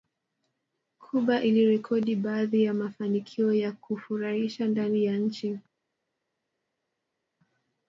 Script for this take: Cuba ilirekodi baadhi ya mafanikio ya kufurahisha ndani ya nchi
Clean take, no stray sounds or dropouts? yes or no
yes